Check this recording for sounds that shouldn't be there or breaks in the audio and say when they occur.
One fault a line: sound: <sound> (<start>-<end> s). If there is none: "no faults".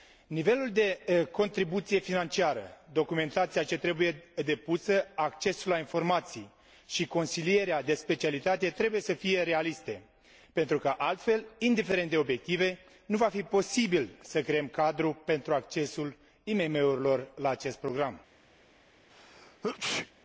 sound: sneeze (19.1-20.1 s)